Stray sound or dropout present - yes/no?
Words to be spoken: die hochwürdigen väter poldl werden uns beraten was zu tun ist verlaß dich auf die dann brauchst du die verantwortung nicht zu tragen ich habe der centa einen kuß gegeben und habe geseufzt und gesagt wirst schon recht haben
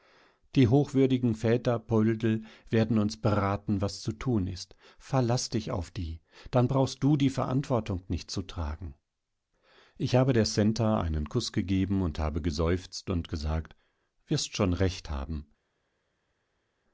no